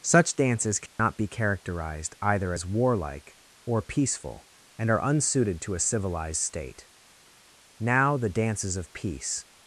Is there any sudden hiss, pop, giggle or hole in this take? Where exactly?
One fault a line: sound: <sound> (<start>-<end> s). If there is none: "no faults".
sound: dropout (0.9-1.0 s)